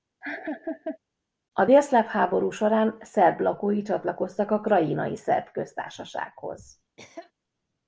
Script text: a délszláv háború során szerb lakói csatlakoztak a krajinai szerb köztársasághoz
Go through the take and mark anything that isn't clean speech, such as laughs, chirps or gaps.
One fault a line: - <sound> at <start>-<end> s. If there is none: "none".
- laugh at 0.2-1.0 s
- cough at 7.0-7.3 s